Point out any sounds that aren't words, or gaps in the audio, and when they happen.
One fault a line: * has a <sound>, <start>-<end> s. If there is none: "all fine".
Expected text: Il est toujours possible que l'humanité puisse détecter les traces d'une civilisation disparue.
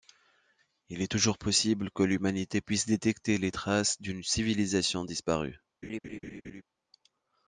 * has a laugh, 5.8-6.6 s